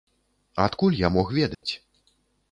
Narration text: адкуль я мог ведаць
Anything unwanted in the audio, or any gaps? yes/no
yes